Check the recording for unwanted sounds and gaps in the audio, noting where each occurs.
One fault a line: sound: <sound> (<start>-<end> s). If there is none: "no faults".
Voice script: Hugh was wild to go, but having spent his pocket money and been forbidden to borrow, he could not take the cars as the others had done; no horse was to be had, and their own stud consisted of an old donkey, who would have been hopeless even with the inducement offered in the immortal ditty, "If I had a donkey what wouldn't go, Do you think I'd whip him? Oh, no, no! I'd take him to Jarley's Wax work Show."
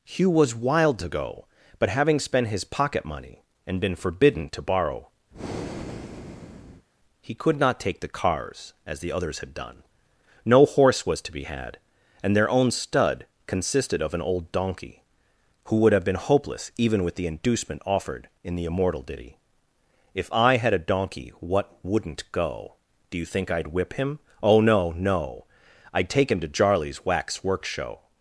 sound: breath (5.3-6.9 s)